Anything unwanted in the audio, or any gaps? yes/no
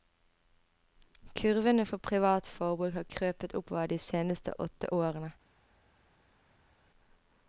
no